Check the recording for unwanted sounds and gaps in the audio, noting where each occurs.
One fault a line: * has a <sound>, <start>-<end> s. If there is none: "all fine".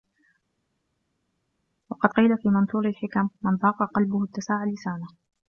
all fine